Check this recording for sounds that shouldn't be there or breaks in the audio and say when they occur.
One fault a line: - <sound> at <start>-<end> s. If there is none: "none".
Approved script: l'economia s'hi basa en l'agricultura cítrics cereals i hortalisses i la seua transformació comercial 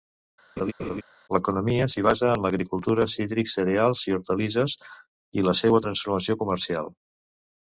- laugh at 0.6-1.0 s